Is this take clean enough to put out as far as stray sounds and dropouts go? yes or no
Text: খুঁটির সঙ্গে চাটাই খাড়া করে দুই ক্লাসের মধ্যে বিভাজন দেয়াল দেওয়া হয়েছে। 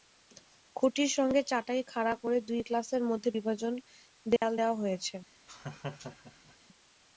no